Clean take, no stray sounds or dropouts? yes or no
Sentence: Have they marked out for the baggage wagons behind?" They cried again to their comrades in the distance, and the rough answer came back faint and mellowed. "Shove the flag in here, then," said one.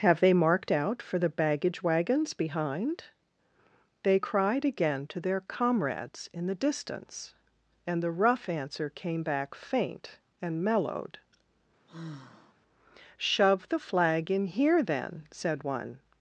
no